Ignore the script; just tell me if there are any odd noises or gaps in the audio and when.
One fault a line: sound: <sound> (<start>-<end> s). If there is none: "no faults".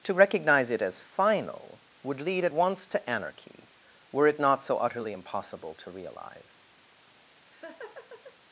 sound: laugh (7.4-8.4 s)